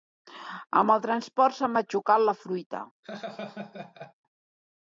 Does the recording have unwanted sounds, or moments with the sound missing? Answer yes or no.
yes